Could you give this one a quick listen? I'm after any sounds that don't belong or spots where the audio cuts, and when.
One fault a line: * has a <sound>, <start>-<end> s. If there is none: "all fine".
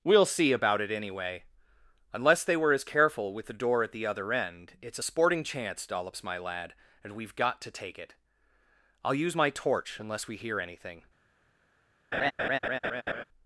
* has a laugh, 12.1-13.2 s